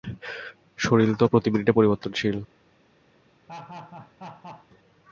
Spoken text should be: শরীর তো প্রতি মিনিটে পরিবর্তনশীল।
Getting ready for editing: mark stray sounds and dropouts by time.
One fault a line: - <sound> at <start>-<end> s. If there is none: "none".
- laugh at 3.5-4.7 s